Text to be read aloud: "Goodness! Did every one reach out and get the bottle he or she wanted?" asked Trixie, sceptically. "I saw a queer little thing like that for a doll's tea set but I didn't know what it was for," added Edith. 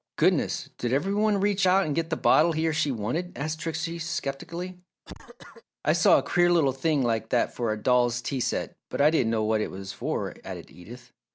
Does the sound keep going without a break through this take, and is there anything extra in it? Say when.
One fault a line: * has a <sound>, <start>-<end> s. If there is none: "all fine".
* has a cough, 5.0-5.6 s